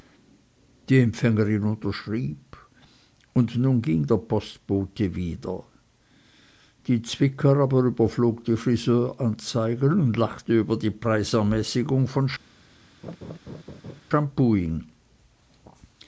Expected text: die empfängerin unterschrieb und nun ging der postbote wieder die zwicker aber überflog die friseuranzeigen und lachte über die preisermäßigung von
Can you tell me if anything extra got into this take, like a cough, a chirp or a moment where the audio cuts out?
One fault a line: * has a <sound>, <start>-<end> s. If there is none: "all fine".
* has a laugh, 13.0-14.0 s